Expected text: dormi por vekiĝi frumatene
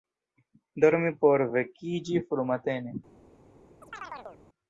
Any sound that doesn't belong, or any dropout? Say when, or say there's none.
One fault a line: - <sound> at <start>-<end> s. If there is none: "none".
- chirp at 3.8-4.4 s